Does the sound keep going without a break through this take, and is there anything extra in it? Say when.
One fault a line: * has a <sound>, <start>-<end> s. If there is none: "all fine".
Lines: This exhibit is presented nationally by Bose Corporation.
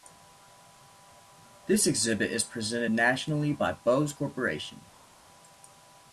all fine